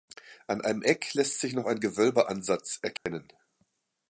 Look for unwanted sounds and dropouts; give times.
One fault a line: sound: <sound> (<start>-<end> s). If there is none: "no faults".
sound: dropout (3.0-3.1 s)